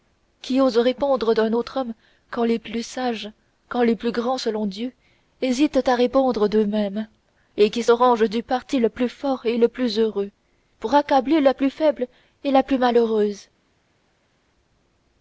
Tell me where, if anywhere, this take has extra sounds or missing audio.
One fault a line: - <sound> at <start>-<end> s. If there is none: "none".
none